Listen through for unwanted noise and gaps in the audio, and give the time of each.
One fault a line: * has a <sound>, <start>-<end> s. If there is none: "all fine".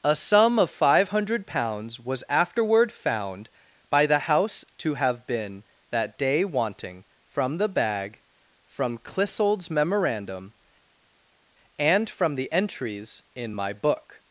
all fine